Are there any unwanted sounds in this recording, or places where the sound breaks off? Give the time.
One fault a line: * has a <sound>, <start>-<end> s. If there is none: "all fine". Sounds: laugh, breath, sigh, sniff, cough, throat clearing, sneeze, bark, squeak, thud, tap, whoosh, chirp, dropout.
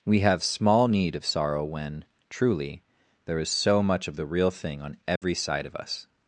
* has a dropout, 5.2-5.2 s